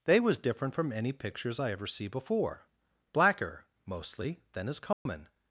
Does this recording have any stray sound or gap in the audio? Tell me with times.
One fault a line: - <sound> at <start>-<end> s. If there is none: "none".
- dropout at 4.9-5.1 s